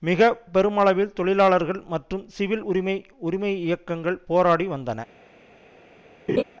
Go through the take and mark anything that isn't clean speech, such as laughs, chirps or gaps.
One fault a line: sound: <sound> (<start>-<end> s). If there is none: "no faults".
sound: laugh (6.3-6.4 s)